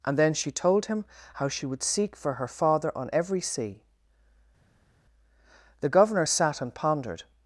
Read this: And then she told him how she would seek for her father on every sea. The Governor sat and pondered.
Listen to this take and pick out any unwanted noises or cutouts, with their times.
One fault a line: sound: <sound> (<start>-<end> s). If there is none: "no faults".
no faults